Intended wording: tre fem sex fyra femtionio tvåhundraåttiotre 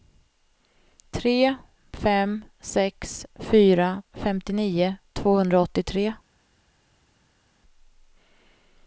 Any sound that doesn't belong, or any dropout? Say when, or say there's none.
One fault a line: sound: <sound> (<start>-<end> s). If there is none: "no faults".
no faults